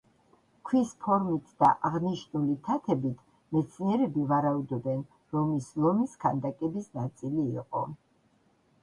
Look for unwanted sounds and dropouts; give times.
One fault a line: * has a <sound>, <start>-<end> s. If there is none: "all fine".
all fine